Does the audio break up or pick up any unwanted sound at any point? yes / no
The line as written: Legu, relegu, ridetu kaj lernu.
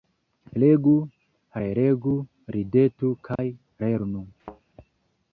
yes